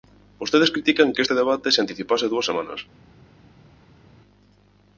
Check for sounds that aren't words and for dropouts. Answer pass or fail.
pass